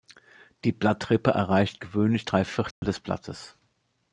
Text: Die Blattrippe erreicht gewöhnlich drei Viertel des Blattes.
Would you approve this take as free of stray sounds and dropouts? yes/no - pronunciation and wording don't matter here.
no